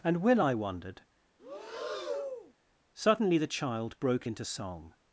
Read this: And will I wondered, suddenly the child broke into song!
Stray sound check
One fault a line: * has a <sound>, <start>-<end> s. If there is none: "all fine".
* has a breath, 1.4-2.5 s